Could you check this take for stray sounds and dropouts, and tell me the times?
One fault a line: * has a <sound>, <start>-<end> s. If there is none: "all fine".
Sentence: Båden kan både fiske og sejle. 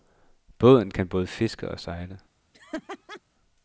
* has a laugh, 2.5-3.2 s